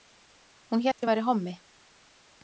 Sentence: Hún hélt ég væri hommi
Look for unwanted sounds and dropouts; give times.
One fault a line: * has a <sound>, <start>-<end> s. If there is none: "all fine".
* has a dropout, 0.9-1.0 s